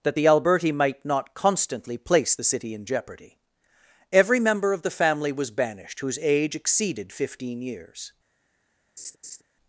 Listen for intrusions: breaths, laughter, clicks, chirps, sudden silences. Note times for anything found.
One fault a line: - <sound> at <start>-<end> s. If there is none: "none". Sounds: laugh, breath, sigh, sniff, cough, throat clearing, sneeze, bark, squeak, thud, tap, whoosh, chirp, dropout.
- laugh at 9.0-9.4 s